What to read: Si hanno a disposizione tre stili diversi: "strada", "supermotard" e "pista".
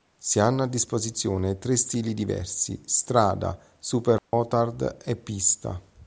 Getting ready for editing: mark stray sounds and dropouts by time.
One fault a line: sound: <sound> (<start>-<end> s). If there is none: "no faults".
sound: dropout (4.2-4.3 s)